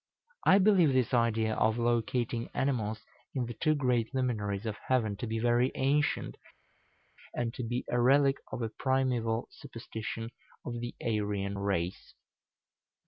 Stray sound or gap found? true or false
false